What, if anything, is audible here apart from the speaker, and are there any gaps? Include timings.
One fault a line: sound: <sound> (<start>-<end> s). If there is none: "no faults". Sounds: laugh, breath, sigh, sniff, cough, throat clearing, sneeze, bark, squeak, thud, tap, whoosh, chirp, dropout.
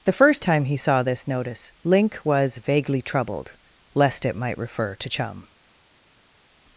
no faults